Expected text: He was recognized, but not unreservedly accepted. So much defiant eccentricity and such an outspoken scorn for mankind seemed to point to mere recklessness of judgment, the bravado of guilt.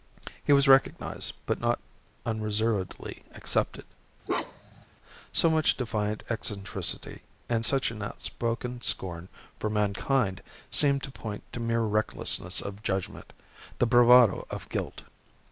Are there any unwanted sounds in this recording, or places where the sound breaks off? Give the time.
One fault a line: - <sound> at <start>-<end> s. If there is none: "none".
- bark at 4.3-4.9 s